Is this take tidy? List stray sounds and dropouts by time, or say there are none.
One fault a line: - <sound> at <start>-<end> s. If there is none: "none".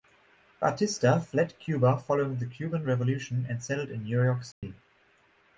- dropout at 4.5-4.6 s